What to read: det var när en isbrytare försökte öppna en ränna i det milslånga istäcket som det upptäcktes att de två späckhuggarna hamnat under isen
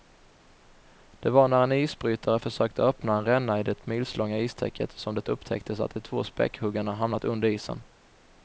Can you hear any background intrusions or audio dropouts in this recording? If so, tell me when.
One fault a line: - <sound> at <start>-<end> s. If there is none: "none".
none